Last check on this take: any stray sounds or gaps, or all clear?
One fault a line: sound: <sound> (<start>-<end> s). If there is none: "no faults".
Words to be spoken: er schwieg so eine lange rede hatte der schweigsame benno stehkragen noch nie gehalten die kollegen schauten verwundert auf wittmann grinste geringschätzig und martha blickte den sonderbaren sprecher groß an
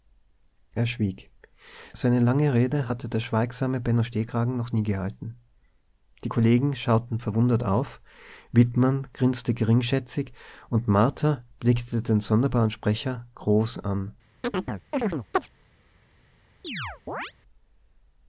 sound: chirp (14.4-15.5 s)
sound: chirp (16.6-17.3 s)